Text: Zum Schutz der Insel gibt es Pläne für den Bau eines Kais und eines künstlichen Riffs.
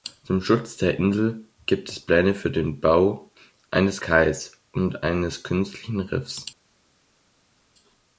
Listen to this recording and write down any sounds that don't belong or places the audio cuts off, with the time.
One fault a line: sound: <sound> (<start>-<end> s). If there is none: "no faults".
no faults